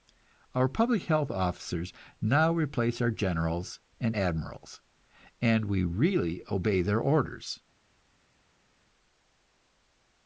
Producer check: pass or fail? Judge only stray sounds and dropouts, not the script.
pass